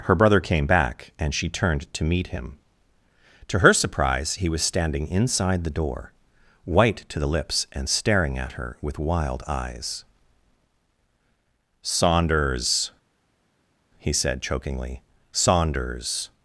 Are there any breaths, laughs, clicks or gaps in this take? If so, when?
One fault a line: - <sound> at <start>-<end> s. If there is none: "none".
none